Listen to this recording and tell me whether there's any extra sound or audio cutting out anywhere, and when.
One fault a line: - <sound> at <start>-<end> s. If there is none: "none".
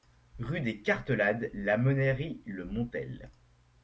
none